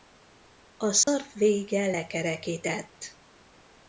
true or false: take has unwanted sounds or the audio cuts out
true